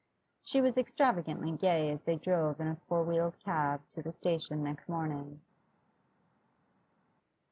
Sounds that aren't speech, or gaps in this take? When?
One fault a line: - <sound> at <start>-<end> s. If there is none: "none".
none